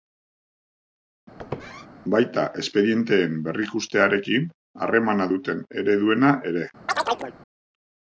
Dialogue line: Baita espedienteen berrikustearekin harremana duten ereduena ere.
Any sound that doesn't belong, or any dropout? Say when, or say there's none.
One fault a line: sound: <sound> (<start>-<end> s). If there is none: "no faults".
sound: squeak (1.4-1.9 s)
sound: chirp (6.9-7.3 s)